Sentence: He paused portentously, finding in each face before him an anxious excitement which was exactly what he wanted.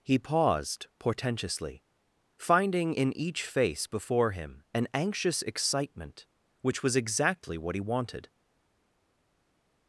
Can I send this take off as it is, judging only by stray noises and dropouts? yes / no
yes